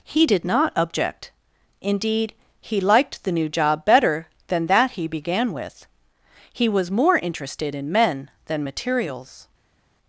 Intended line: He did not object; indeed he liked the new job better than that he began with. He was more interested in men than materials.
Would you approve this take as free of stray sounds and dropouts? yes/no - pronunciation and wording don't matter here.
yes